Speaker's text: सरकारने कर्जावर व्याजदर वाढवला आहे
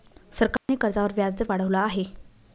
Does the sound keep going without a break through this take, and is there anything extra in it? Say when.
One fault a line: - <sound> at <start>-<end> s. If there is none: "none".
- dropout at 0.6-0.7 s